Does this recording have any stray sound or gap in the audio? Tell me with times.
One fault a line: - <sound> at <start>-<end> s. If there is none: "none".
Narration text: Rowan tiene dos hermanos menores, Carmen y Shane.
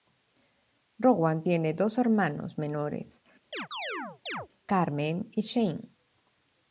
- chirp at 3.5-4.5 s